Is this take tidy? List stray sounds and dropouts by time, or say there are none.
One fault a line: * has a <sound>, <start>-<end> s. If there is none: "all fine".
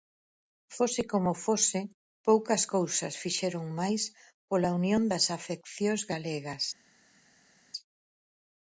all fine